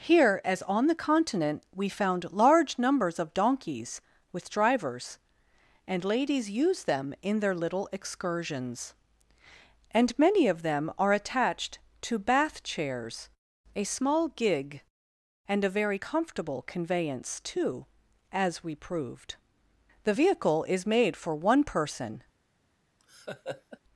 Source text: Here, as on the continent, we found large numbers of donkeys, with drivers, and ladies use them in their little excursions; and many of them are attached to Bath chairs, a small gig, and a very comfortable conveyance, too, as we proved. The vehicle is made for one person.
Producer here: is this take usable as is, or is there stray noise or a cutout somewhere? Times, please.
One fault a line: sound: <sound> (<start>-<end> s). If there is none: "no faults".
sound: laugh (23.0-23.8 s)